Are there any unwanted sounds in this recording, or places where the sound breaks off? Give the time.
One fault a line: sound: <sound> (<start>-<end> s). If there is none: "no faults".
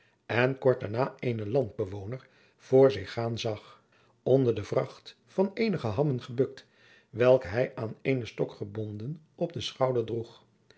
no faults